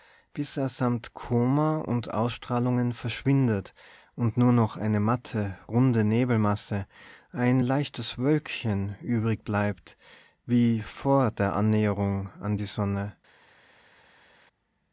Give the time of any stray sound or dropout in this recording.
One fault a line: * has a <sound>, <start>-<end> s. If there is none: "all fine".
all fine